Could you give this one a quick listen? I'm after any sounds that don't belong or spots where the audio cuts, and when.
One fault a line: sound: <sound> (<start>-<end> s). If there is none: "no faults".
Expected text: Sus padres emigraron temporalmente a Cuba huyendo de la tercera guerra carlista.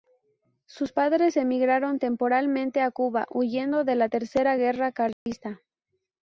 sound: dropout (5.1-5.3 s)